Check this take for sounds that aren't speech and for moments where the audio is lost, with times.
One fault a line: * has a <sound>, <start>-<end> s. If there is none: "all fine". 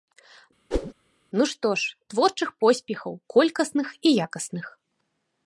* has a whoosh, 0.7-0.9 s